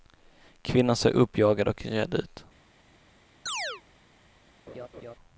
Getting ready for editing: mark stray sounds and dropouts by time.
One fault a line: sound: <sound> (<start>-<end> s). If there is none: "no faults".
sound: chirp (3.5-3.8 s)
sound: laugh (4.7-5.1 s)